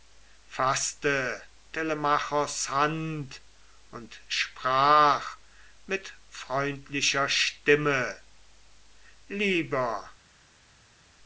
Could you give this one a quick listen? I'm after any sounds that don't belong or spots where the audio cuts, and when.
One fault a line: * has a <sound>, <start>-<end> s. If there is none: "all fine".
all fine